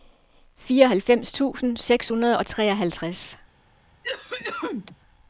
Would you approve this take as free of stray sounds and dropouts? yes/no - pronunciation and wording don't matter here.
no